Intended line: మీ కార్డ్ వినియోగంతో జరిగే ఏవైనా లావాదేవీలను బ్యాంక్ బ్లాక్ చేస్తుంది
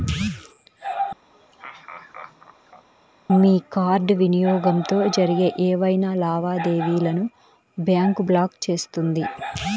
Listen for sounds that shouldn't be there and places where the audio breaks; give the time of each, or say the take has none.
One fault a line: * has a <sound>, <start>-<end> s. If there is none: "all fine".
* has a laugh, 1.3-2.9 s